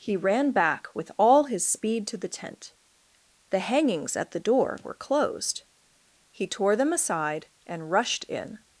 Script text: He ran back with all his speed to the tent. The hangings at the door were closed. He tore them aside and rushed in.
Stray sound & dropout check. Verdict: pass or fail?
pass